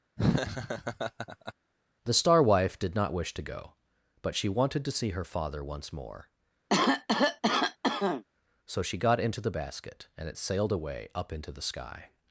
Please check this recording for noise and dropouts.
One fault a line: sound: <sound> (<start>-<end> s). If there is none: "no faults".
sound: laugh (0.2-1.5 s)
sound: cough (6.7-8.2 s)